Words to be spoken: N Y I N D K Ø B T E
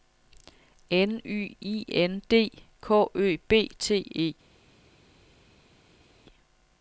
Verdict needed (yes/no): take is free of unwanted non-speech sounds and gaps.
yes